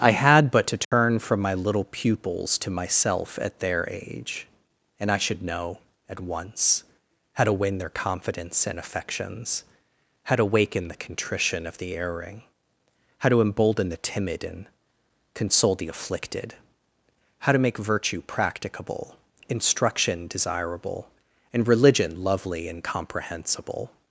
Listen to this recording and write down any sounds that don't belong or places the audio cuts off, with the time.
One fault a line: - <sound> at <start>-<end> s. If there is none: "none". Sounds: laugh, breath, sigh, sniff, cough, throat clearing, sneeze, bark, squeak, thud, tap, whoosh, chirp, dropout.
- dropout at 0.8-0.9 s